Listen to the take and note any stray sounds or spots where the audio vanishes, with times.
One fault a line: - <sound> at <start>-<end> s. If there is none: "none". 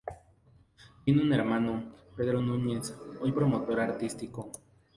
none